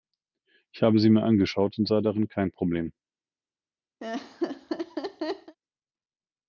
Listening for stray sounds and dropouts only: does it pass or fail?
fail